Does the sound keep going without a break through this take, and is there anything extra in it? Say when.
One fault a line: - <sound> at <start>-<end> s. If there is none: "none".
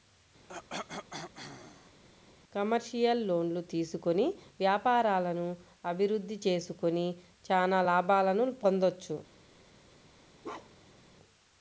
- cough at 0.5-2.0 s
- bark at 10.4-11.0 s